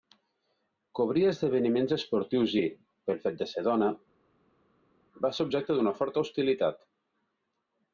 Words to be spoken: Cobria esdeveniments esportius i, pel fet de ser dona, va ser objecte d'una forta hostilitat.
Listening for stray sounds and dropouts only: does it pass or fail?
pass